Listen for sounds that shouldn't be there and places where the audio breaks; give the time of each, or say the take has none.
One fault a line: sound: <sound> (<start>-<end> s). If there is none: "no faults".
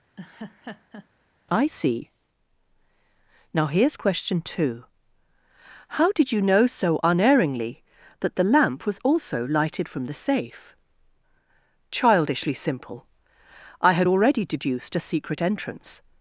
sound: laugh (0.2-1.1 s)